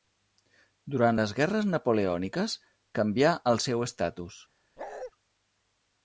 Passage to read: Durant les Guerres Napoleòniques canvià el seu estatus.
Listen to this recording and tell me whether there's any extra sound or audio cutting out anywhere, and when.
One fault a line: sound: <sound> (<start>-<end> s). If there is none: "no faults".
sound: bark (4.8-5.1 s)